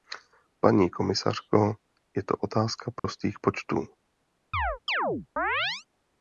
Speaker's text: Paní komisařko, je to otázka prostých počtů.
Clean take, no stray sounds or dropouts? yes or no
no